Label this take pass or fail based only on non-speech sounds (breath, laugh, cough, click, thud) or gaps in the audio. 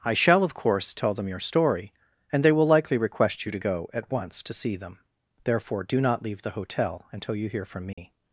fail